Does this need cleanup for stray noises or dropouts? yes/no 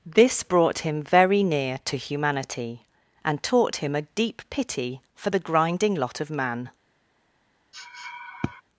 yes